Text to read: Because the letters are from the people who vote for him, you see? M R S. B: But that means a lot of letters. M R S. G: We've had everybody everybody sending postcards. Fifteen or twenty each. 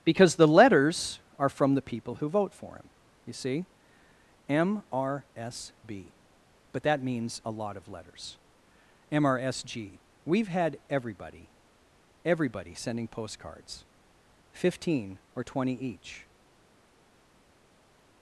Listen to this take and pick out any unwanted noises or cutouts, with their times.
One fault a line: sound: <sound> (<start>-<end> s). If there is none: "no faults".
no faults